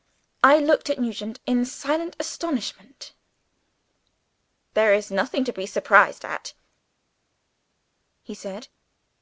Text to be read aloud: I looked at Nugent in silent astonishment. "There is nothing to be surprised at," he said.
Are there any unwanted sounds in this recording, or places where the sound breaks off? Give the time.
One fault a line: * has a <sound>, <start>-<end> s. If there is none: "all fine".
all fine